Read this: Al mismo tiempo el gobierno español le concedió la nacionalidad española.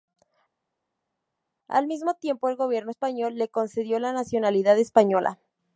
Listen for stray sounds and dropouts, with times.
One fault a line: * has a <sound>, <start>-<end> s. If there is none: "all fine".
all fine